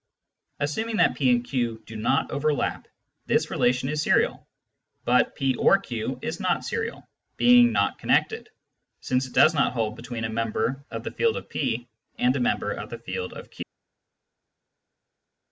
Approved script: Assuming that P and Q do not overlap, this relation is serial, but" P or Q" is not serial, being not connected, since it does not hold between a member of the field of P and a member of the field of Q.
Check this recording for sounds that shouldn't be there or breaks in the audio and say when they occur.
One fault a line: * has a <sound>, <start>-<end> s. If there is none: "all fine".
all fine